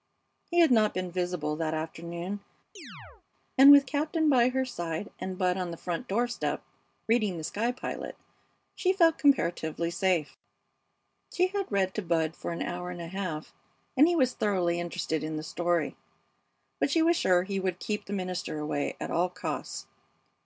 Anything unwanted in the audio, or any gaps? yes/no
yes